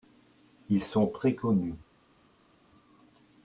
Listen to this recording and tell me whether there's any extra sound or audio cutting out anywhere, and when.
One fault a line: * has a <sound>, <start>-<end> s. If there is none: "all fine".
all fine